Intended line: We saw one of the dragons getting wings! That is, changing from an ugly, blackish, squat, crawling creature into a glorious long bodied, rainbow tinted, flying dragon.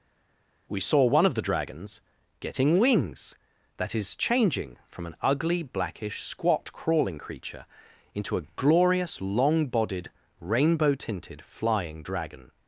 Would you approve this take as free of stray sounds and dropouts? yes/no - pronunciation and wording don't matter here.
yes